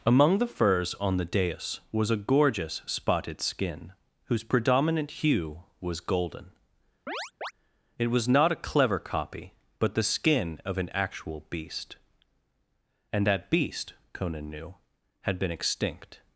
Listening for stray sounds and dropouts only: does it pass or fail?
fail